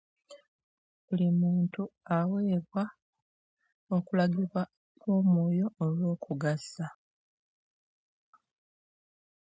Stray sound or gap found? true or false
false